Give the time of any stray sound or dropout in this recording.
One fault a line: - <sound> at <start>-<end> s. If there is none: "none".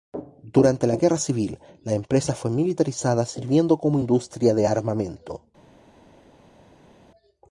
none